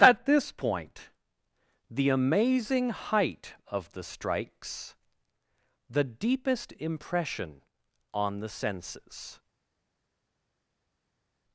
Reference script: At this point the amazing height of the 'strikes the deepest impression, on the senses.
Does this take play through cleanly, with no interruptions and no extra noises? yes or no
yes